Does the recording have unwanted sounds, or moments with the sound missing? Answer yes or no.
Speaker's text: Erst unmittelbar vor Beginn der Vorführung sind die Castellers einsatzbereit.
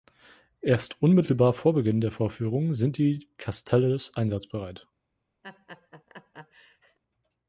yes